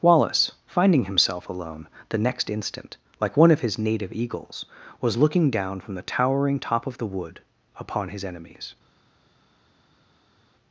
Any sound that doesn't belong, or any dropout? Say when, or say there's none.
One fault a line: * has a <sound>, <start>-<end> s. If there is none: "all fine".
all fine